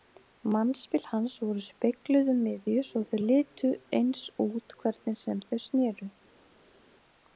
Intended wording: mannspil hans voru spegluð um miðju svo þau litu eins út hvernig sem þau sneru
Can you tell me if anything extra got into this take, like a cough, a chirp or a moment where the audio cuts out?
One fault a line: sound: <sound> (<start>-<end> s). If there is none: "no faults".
no faults